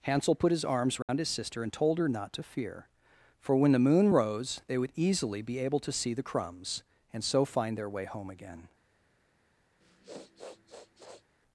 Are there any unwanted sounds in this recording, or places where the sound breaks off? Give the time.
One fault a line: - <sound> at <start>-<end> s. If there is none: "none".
- dropout at 1.0-1.1 s
- sniff at 9.8-11.2 s